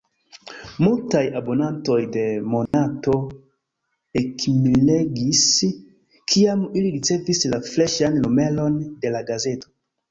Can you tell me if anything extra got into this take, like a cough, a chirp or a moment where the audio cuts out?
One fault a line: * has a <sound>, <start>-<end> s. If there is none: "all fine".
* has a dropout, 2.7-2.7 s